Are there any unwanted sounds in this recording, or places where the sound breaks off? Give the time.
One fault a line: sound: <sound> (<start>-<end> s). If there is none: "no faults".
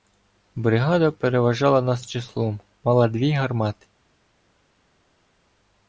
no faults